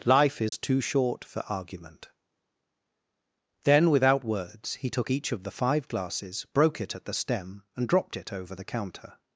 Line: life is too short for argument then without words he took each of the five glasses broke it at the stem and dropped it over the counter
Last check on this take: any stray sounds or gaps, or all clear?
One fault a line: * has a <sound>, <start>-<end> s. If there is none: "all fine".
* has a dropout, 0.5-0.5 s